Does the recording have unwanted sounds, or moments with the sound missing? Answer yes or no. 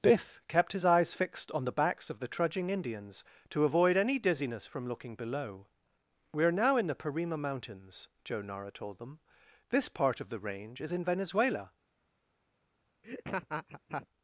yes